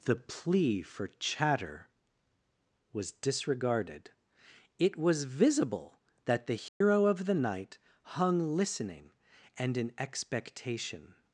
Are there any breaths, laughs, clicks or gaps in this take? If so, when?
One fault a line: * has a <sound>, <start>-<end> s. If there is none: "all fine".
* has a dropout, 6.7-6.8 s